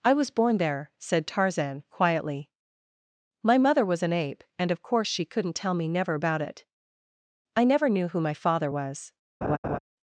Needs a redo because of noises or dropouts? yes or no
yes